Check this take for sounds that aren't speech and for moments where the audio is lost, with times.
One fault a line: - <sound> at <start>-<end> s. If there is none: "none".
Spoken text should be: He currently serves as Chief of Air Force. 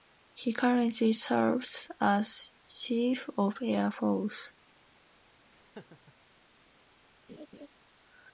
- laugh at 5.5-6.1 s
- laugh at 7.3-7.7 s